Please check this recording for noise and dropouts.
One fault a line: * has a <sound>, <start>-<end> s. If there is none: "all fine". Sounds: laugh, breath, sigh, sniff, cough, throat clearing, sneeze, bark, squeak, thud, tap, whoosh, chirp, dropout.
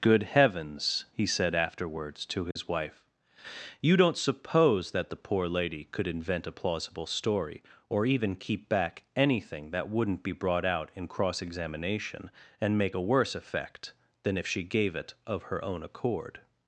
* has a dropout, 2.5-2.6 s